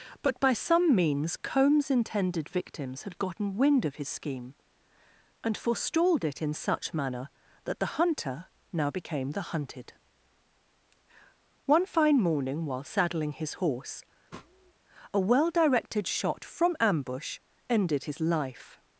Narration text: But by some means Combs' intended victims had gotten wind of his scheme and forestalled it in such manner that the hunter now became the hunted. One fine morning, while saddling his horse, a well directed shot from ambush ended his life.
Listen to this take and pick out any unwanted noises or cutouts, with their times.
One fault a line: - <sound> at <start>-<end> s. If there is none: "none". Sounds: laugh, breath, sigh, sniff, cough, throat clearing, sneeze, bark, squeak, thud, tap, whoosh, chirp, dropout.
- sniff at 14.3-14.7 s